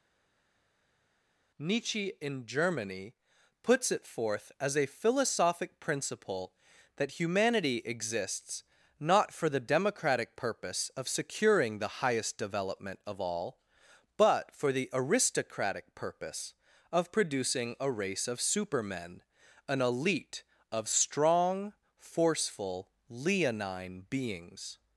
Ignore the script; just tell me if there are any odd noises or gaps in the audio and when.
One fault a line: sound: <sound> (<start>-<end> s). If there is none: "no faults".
no faults